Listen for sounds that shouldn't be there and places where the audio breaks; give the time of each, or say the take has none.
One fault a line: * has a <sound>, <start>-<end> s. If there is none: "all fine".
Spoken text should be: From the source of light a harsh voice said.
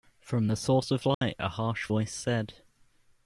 * has a dropout, 1.1-1.2 s